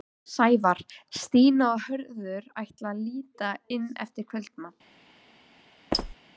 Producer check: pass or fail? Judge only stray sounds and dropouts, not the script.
fail